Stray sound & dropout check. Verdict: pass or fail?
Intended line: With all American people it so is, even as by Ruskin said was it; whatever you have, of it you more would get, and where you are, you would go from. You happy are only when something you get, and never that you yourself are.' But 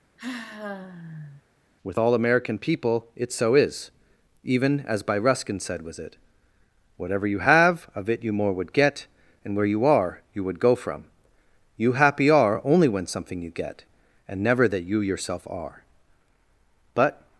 fail